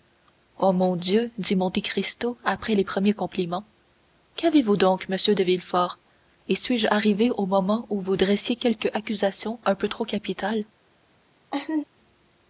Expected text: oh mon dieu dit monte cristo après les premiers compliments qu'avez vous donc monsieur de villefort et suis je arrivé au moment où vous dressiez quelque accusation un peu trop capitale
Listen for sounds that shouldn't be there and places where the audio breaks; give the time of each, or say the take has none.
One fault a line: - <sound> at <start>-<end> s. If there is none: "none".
- laugh at 11.5-11.8 s